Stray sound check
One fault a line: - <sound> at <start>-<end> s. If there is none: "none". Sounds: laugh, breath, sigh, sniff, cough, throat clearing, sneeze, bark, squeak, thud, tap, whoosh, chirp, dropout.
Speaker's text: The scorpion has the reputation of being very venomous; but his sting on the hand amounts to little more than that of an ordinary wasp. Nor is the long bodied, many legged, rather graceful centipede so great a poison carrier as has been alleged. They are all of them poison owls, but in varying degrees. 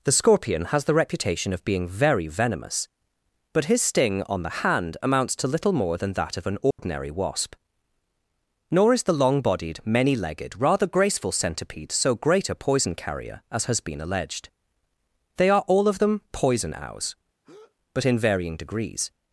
- dropout at 6.7-6.8 s
- breath at 17.4-17.8 s